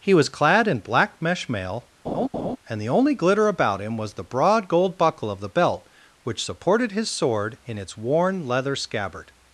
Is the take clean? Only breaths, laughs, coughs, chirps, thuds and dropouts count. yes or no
no